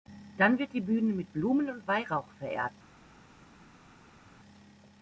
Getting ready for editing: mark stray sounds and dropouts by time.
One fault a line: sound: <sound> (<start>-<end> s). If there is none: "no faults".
no faults